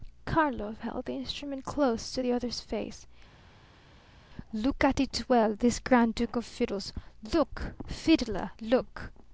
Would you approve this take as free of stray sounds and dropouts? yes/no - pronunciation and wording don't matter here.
yes